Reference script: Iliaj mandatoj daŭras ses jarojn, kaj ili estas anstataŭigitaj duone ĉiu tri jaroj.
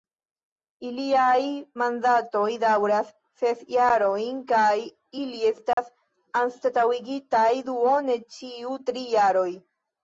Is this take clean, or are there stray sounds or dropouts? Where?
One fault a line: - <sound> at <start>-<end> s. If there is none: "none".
- dropout at 5.7-5.8 s